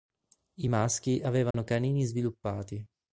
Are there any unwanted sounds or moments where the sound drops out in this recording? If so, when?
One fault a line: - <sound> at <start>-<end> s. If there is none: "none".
- dropout at 1.5-1.5 s